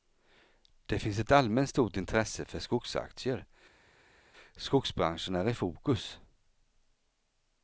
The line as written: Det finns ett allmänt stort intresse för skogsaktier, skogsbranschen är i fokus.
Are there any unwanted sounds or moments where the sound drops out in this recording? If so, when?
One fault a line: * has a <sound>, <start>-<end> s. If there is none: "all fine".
all fine